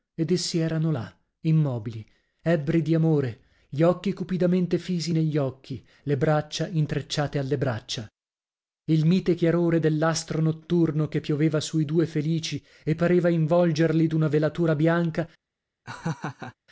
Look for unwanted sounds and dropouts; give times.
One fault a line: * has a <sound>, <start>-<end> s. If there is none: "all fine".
* has a laugh, 15.8-16.5 s